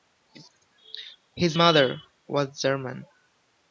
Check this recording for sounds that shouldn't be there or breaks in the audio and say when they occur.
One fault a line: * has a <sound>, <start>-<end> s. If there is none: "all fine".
all fine